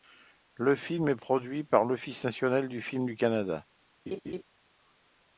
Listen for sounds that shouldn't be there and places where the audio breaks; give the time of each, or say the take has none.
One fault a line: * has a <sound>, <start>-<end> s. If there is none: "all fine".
* has a laugh, 4.1-4.4 s